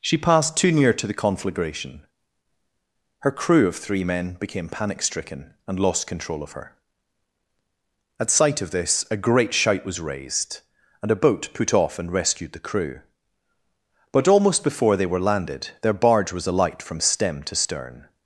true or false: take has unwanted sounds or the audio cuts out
false